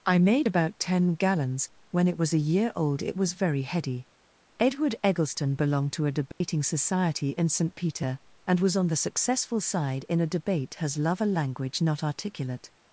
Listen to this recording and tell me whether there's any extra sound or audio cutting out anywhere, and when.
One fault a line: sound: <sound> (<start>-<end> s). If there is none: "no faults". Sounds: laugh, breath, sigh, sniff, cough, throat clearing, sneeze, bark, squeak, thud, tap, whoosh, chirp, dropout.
sound: dropout (6.3-6.4 s)